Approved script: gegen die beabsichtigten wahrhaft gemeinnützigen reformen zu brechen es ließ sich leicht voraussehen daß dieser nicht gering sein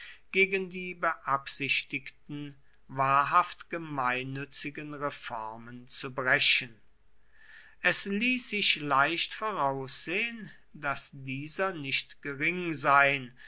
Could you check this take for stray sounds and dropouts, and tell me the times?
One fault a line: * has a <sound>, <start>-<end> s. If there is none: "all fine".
all fine